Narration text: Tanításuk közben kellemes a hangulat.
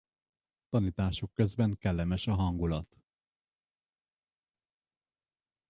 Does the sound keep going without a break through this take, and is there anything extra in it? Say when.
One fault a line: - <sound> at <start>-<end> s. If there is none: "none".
none